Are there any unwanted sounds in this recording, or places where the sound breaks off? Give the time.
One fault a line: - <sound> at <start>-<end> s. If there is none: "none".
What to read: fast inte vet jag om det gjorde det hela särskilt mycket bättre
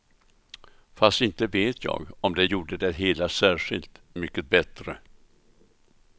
none